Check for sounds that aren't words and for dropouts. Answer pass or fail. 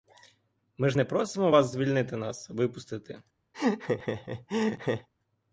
fail